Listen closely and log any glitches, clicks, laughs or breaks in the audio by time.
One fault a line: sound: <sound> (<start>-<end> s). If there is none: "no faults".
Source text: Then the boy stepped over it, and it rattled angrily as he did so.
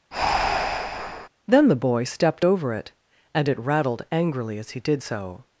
sound: breath (0.1-1.3 s)